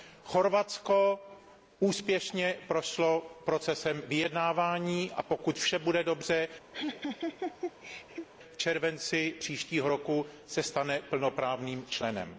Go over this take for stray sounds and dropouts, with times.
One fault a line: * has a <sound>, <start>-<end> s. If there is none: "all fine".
* has a laugh, 6.7-8.3 s